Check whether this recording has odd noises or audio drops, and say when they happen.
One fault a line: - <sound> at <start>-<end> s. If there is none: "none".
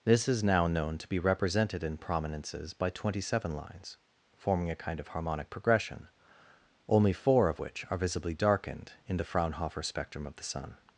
none